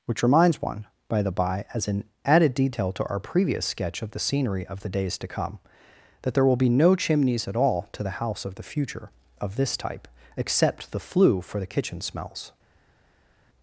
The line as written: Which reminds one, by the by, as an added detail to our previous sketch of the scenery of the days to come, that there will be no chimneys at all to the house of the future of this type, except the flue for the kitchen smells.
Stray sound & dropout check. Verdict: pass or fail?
pass